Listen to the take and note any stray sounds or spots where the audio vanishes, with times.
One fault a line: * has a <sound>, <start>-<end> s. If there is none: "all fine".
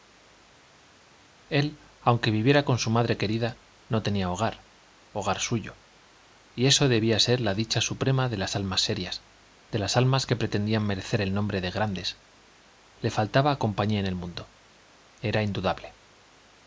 all fine